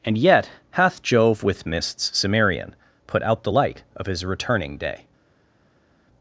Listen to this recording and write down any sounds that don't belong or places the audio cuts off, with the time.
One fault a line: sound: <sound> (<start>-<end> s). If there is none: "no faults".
no faults